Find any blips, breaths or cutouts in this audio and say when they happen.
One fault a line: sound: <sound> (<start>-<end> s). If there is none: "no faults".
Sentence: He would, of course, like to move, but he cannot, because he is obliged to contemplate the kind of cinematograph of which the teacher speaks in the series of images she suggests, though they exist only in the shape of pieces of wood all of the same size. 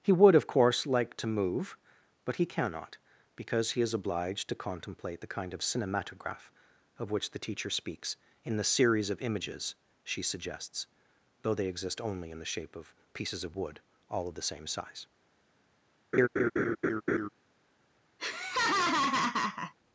sound: laugh (16.1-17.3 s)
sound: laugh (18.2-19.7 s)